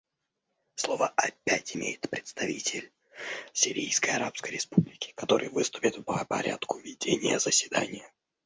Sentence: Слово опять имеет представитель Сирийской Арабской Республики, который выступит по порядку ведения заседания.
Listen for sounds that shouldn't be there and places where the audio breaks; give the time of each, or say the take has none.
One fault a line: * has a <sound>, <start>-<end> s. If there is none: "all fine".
all fine